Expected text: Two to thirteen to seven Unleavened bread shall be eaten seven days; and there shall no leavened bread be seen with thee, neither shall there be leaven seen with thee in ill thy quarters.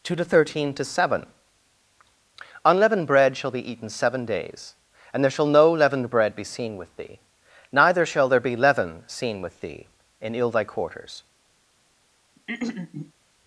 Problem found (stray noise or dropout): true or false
true